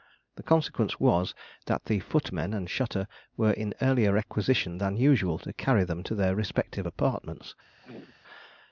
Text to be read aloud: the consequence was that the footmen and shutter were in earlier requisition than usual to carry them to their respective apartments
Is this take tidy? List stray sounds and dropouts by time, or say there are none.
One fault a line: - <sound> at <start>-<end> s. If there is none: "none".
- throat clearing at 7.8-8.1 s